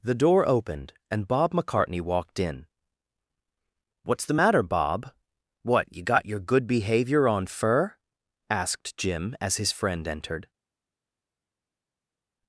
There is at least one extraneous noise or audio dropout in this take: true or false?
false